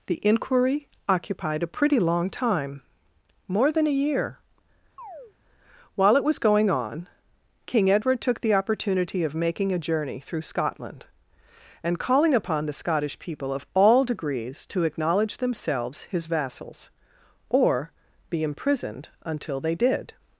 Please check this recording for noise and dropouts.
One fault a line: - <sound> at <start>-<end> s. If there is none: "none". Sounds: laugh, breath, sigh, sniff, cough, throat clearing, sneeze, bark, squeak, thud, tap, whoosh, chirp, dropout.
- chirp at 5.0-5.3 s